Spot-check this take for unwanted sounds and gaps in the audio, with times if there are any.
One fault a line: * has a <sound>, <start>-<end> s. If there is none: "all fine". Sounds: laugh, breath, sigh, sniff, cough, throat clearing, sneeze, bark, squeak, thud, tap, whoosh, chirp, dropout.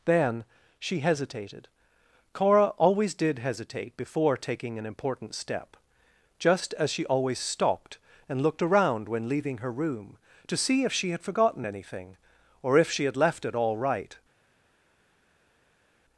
all fine